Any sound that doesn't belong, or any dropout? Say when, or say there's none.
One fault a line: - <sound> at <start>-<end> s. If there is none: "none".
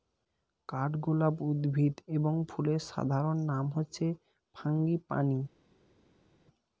none